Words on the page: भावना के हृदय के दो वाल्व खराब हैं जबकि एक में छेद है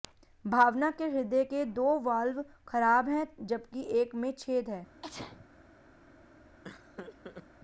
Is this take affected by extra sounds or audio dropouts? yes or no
yes